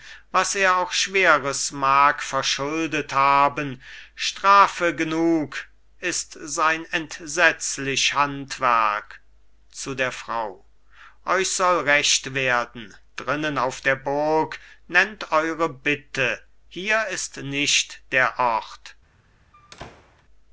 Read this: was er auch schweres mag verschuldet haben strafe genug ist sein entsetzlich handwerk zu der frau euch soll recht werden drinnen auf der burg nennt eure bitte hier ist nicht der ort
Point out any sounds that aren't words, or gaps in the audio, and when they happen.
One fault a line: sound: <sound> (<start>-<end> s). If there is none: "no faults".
sound: squeak (19.5-20.2 s)